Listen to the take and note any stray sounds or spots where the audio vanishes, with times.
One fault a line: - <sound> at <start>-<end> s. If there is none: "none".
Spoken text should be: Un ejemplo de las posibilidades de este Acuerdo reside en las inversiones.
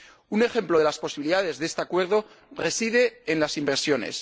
none